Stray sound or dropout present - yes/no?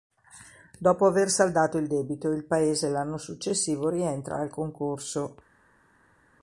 no